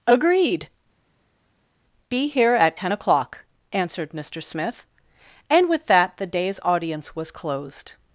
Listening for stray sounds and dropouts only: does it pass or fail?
pass